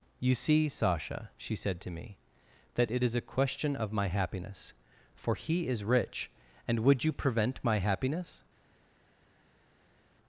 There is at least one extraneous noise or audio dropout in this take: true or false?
false